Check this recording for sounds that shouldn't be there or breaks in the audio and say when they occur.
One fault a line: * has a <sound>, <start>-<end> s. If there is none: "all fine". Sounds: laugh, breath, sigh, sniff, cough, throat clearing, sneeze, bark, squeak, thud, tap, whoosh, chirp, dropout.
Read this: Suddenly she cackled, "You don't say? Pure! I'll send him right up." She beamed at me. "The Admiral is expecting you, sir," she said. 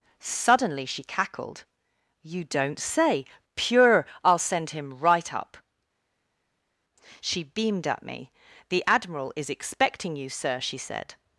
all fine